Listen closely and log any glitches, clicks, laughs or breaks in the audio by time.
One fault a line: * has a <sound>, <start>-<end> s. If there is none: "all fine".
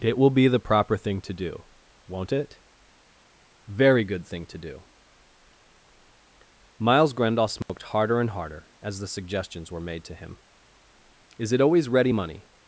* has a dropout, 7.6-7.7 s